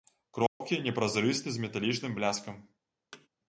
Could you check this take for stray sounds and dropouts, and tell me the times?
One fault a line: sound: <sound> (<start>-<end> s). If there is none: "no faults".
sound: dropout (0.5-0.6 s)
sound: thud (3.1-3.3 s)